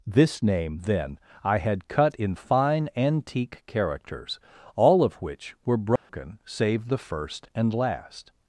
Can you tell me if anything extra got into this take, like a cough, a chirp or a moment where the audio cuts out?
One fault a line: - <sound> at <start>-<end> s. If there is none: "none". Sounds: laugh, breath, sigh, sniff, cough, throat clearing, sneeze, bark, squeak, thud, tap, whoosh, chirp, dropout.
- dropout at 6.0-6.1 s